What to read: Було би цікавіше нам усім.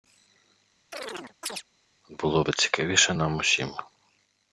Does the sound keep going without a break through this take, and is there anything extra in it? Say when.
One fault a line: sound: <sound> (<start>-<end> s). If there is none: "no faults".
sound: chirp (0.9-1.6 s)